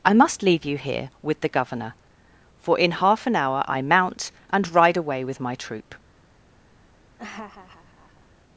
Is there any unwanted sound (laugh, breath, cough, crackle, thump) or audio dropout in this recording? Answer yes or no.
yes